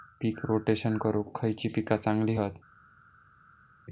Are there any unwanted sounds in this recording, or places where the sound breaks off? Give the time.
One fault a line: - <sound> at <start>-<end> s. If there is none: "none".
none